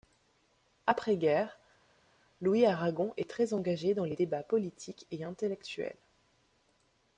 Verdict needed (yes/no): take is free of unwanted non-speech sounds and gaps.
yes